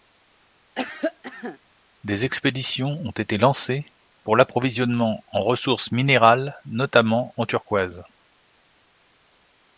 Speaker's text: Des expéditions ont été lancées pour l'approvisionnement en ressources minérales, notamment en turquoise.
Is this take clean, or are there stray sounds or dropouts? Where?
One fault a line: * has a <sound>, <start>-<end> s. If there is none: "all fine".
* has a cough, 0.8-1.6 s